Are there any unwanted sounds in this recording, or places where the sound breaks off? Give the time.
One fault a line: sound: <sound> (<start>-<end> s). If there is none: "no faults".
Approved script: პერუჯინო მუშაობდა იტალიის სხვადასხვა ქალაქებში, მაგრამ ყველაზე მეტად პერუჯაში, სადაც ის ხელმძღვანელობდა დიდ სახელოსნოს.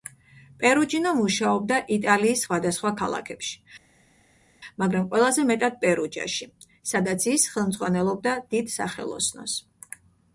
no faults